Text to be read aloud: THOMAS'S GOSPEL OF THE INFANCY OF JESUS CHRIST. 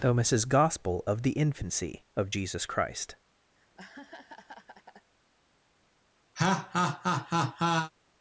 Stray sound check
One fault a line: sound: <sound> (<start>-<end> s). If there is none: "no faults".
sound: laugh (3.6-5.1 s)
sound: laugh (6.4-7.9 s)